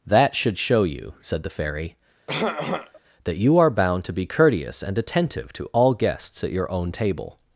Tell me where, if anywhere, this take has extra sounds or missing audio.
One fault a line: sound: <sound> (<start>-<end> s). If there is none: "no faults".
sound: throat clearing (2.3-3.0 s)